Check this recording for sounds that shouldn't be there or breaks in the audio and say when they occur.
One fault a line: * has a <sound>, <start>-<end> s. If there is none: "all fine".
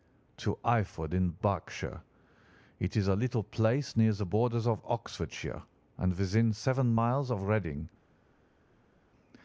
all fine